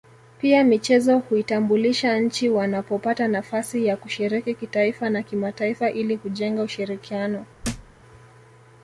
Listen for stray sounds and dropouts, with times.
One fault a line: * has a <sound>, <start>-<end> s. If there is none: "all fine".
* has a thud, 7.6-7.9 s